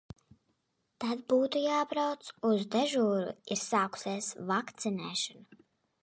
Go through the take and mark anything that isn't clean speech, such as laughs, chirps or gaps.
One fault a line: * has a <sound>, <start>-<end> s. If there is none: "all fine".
all fine